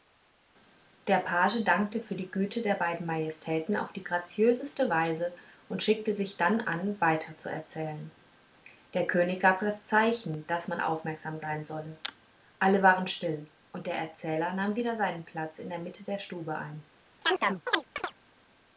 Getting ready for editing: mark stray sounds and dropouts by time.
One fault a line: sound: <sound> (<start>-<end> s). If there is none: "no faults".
sound: chirp (17.2-18.1 s)